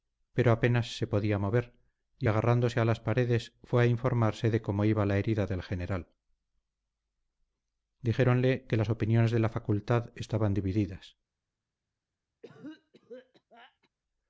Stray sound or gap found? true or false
true